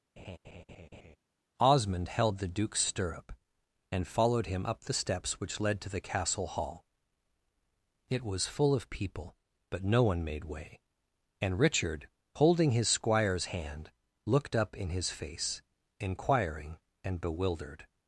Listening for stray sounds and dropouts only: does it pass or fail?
fail